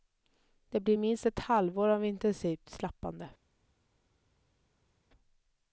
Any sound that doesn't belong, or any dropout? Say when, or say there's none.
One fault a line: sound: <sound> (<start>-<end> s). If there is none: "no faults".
no faults